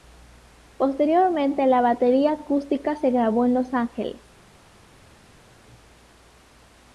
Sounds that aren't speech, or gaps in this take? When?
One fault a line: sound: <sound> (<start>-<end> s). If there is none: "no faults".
no faults